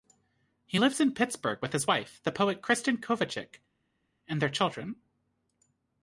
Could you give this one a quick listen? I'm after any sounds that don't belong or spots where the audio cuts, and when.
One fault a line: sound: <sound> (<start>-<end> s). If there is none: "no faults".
no faults